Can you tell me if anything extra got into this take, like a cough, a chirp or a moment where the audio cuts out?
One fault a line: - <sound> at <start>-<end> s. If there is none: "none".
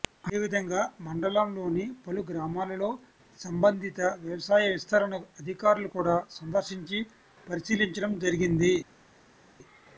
none